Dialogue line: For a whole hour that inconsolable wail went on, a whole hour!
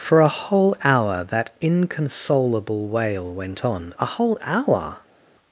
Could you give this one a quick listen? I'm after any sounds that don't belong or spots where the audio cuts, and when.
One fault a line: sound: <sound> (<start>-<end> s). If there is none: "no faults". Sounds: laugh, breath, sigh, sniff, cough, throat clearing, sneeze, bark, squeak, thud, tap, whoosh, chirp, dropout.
no faults